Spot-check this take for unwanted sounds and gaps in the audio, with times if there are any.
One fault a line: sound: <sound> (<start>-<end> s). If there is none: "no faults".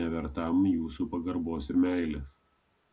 no faults